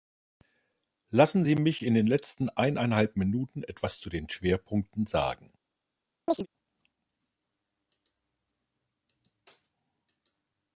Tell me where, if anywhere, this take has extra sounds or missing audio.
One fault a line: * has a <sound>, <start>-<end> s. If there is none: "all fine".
* has a chirp, 6.3-6.5 s